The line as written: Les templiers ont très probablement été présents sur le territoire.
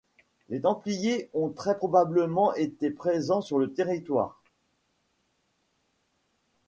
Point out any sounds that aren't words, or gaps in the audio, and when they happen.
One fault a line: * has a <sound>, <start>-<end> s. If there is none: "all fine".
all fine